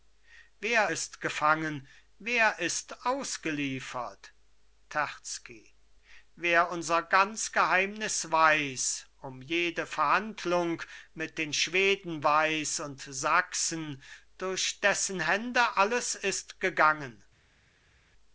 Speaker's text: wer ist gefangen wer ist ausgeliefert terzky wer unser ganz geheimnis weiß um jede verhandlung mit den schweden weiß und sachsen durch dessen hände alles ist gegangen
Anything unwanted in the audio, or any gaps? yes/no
no